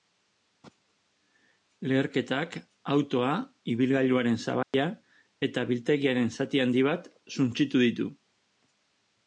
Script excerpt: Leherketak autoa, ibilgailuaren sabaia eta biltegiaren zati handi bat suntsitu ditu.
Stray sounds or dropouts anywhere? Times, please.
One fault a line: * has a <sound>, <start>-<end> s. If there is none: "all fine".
* has a dropout, 4.6-4.7 s